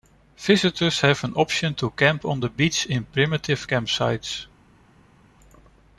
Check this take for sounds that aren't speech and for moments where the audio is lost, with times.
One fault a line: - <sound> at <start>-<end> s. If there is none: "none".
none